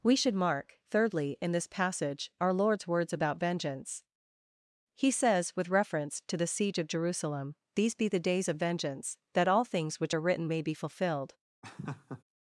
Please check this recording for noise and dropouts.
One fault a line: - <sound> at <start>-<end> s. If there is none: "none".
- laugh at 11.6-12.2 s